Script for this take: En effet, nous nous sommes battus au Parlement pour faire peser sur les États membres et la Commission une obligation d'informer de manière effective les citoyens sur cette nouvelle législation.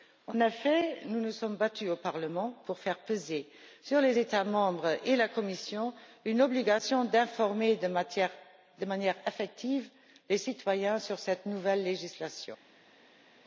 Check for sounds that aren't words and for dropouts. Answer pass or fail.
pass